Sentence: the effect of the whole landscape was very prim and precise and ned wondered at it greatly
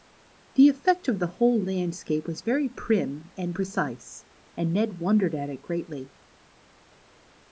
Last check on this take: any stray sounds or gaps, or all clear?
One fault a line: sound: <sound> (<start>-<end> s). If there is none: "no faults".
no faults